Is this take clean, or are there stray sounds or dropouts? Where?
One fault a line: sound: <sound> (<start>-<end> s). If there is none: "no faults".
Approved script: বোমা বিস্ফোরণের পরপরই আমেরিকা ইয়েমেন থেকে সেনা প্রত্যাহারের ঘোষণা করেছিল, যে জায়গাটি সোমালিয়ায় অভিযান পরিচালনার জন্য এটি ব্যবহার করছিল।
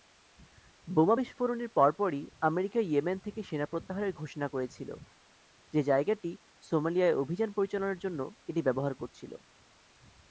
no faults